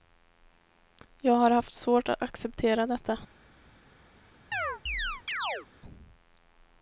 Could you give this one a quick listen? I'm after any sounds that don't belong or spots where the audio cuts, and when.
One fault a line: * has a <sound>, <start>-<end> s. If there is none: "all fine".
* has a chirp, 4.5-5.7 s